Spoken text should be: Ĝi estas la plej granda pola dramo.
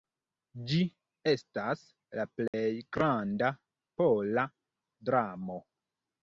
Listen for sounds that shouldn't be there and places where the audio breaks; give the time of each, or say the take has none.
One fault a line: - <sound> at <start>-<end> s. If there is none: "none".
- dropout at 2.5-2.5 s